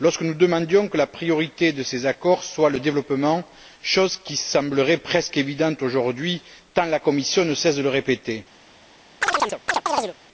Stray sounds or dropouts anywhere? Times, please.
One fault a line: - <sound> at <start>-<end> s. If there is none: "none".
- chirp at 9.2-10.1 s